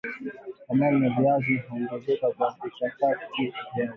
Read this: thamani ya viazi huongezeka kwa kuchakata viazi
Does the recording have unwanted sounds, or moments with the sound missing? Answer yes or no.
no